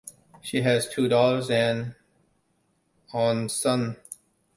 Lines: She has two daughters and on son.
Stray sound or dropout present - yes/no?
no